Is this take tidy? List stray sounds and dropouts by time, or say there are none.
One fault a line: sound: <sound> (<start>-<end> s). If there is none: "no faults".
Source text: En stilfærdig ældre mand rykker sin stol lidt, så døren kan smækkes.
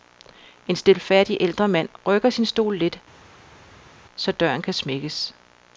no faults